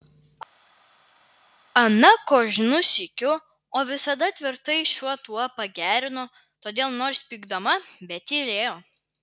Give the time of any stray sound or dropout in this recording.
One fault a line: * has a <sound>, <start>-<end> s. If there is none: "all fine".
all fine